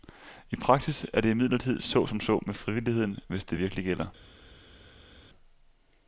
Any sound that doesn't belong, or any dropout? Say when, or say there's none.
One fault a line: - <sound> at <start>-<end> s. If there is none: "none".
none